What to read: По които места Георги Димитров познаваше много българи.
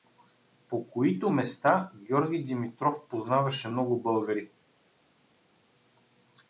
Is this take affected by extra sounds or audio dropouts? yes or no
no